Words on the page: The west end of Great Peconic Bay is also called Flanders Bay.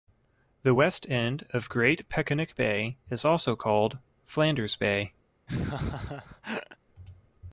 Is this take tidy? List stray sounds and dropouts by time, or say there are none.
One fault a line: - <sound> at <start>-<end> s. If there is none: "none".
- laugh at 5.5-6.8 s